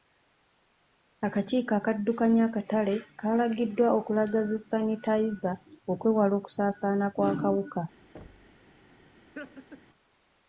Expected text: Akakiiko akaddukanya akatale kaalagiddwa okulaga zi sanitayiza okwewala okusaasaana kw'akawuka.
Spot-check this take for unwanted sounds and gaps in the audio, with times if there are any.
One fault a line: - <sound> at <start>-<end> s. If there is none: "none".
- thud at 8.1-8.6 s
- laugh at 9.3-9.8 s